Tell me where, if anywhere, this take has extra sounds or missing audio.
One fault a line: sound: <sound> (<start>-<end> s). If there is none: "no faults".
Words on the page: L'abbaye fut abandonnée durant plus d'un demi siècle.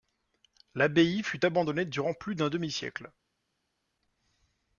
no faults